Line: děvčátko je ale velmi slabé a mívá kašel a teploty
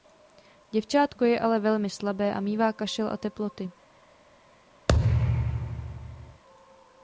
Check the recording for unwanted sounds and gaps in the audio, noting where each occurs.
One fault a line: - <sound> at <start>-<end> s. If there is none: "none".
- thud at 4.9-6.4 s